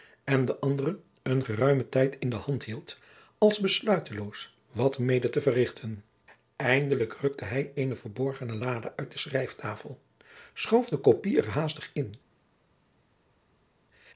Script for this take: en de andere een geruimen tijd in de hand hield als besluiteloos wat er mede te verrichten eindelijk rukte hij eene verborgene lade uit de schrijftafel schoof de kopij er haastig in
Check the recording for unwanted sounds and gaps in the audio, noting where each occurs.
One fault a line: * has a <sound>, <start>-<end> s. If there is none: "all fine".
all fine